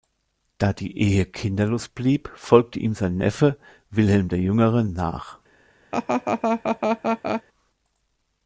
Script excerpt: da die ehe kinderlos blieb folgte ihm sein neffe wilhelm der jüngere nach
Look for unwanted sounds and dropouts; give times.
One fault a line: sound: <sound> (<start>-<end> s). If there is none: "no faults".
sound: laugh (5.9-7.4 s)